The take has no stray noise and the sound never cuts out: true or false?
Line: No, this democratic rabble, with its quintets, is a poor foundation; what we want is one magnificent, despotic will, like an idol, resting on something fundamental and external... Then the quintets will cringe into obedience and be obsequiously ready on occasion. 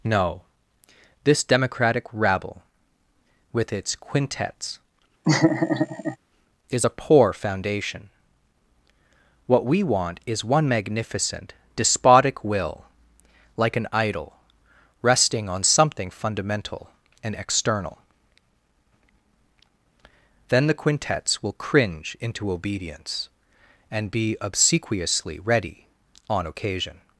false